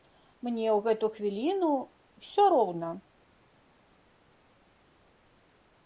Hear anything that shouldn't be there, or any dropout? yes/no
no